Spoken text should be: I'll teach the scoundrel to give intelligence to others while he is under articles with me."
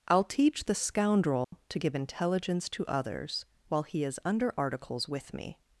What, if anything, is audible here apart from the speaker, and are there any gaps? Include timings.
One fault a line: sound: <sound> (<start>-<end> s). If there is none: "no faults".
sound: dropout (1.4-1.5 s)